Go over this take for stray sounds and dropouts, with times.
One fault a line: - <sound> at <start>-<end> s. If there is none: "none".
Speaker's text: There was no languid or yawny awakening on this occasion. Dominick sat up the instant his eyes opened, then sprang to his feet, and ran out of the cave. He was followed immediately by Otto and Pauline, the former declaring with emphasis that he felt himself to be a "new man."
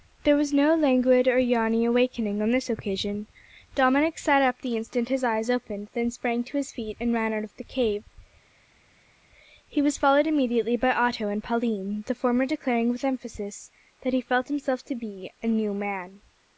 none